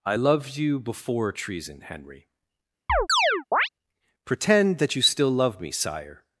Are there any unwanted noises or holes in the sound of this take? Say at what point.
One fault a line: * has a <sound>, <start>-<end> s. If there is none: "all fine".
* has a chirp, 2.9-3.7 s